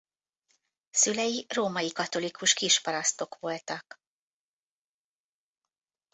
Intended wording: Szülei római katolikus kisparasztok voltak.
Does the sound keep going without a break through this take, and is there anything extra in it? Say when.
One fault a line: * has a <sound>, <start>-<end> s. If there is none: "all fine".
all fine